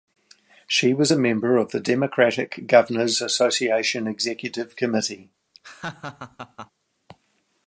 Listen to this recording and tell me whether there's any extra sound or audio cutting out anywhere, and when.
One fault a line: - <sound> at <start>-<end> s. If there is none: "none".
- laugh at 5.5-6.7 s